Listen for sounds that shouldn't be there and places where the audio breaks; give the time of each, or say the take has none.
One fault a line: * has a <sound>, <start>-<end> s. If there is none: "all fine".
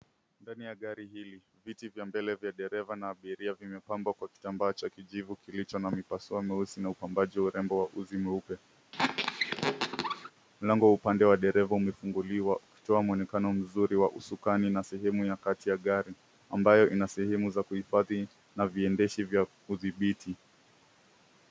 * has a squeak, 8.9-10.3 s